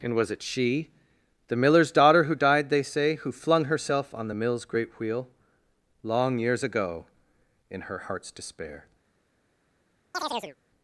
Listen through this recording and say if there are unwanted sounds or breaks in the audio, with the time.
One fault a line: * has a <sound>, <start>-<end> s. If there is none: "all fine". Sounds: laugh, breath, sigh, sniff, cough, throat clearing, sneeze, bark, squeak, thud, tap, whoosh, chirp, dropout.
* has a chirp, 10.1-10.6 s